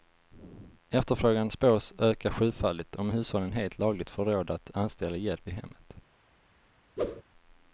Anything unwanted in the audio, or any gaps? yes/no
yes